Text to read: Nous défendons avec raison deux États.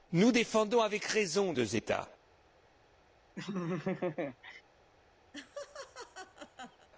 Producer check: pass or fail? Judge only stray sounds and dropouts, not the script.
fail